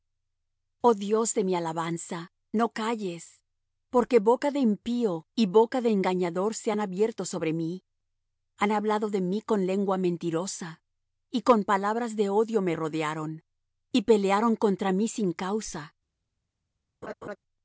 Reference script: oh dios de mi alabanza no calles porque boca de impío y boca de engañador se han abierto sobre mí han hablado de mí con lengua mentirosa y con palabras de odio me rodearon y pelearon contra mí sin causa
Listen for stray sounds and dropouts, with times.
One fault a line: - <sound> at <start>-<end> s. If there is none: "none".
- laugh at 17.0-17.4 s